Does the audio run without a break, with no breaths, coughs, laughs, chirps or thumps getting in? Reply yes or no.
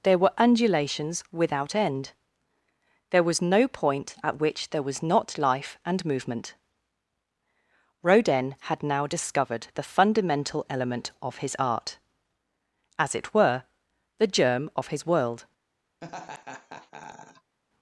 no